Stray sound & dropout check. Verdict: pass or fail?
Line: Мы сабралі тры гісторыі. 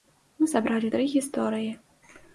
pass